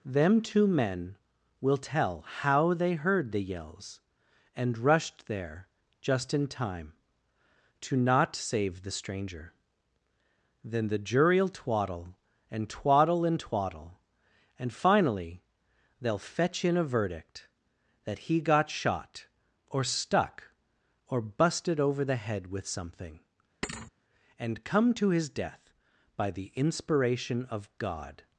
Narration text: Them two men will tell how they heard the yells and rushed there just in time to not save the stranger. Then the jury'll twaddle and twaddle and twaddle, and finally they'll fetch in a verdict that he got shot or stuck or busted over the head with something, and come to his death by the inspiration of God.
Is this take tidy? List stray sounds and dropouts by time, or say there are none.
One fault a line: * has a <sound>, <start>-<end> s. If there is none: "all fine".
* has a thud, 23.6-23.9 s